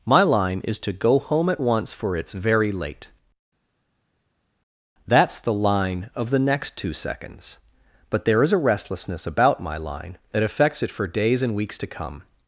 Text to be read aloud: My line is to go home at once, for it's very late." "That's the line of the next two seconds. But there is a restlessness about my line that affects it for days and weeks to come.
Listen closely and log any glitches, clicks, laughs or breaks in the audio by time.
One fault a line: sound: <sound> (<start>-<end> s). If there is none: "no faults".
no faults